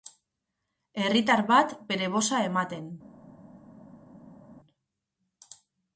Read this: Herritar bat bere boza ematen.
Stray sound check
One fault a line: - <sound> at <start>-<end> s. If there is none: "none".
none